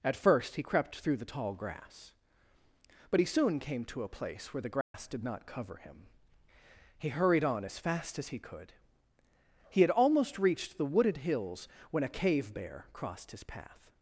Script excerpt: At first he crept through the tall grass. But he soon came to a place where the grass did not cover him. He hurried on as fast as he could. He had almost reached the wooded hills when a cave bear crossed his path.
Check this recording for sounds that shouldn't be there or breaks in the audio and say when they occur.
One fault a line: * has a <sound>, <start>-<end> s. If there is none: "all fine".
* has a dropout, 4.8-4.9 s